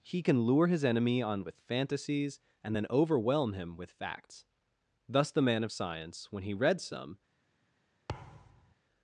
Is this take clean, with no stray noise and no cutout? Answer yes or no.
no